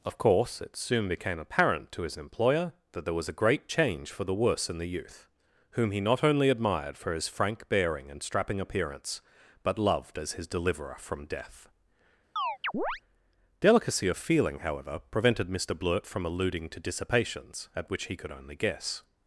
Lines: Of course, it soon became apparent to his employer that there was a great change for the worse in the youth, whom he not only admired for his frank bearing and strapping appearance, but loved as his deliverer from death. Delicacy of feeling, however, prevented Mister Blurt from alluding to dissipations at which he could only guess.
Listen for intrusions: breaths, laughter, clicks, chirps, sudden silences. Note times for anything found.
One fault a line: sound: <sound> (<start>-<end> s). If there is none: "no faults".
sound: chirp (12.4-13.0 s)